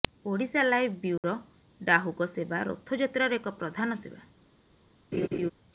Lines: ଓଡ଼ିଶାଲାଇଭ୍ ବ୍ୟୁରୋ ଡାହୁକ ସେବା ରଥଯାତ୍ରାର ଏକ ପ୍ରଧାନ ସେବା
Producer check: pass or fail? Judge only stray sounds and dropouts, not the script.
fail